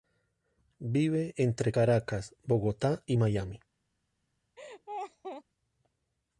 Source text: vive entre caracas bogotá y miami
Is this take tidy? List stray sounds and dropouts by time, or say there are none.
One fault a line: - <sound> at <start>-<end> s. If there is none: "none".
- laugh at 4.6-5.4 s